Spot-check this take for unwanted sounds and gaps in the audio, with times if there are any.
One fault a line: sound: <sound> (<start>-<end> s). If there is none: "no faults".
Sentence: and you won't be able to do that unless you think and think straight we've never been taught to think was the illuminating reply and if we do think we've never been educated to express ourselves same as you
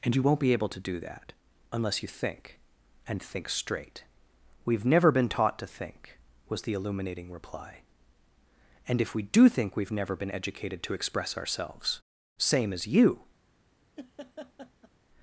sound: laugh (14.0-14.9 s)